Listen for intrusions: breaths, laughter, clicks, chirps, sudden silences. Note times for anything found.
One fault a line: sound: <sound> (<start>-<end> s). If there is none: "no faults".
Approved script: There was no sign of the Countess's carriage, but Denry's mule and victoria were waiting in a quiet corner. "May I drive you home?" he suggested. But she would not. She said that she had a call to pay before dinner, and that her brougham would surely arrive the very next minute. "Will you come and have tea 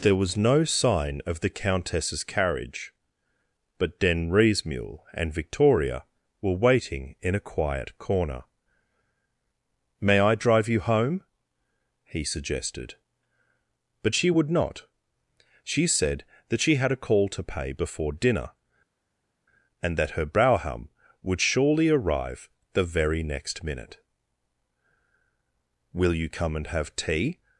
no faults